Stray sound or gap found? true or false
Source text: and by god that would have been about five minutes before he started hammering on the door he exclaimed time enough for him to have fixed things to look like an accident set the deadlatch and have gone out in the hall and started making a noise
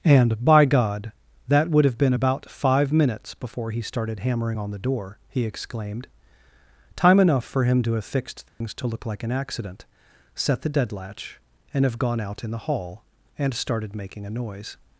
true